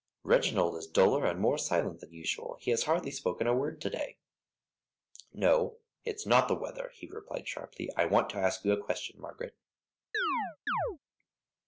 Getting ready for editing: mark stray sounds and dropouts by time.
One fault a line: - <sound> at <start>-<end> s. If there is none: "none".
- chirp at 10.1-11.0 s